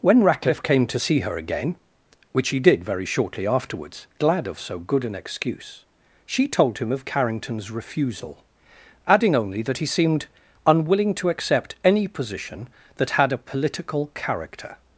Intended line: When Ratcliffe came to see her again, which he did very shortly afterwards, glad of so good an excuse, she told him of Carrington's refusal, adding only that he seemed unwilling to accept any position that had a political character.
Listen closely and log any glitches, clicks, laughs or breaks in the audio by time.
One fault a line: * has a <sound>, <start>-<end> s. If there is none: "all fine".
all fine